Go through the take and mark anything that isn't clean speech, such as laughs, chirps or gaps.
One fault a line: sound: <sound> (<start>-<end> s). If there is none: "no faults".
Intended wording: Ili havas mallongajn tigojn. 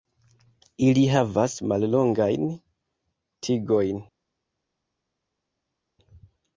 no faults